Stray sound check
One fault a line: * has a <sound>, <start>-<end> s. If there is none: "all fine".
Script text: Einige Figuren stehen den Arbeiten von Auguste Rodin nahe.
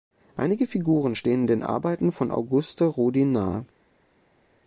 all fine